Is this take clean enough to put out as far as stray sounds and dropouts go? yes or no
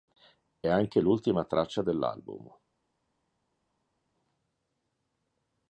yes